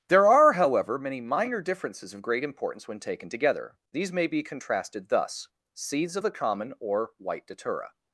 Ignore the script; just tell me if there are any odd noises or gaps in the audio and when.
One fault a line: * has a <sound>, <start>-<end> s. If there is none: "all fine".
all fine